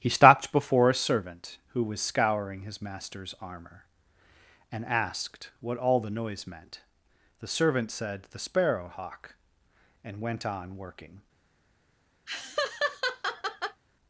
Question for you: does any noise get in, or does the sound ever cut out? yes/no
yes